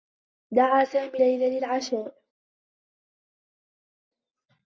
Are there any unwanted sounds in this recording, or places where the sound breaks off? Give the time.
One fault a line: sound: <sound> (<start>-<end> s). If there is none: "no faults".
no faults